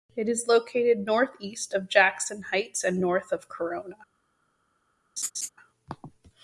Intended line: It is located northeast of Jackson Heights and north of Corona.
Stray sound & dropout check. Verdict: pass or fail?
fail